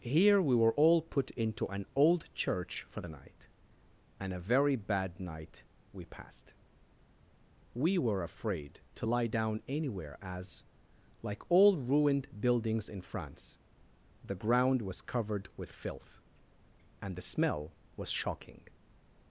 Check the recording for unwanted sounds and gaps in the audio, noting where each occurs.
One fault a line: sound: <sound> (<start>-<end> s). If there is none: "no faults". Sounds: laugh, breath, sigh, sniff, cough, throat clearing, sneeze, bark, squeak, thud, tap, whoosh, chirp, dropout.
no faults